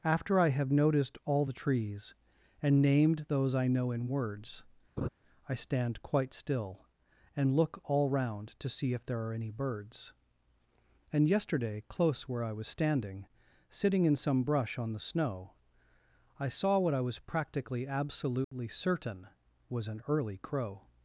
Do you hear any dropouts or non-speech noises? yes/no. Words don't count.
yes